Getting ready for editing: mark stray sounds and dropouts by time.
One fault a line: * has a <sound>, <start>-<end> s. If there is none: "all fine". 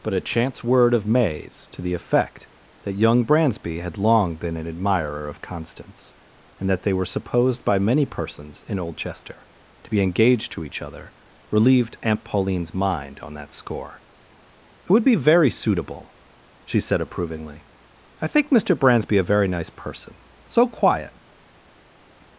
all fine